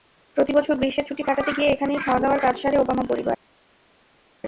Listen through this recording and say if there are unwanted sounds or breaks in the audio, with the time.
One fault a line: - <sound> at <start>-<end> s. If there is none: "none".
none